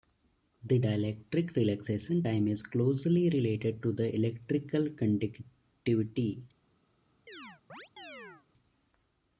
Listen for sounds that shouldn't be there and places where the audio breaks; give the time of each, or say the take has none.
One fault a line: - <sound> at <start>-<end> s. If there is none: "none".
- chirp at 7.3-8.5 s